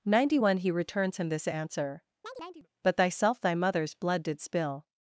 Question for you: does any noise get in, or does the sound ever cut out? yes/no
yes